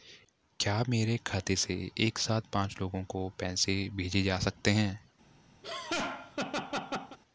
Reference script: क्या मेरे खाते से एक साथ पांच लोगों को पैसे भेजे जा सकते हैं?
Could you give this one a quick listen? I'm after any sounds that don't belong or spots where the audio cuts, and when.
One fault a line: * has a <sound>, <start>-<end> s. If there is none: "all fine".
* has a laugh, 5.6-7.2 s